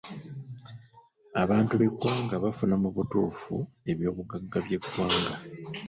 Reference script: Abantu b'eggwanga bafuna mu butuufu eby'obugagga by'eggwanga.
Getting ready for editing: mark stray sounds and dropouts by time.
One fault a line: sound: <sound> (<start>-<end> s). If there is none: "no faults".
no faults